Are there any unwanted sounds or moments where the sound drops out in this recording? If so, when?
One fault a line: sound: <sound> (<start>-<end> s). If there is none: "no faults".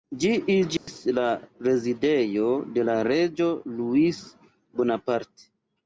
sound: dropout (0.8-0.9 s)